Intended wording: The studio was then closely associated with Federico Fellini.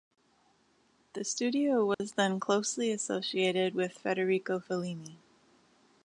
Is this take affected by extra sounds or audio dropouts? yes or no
yes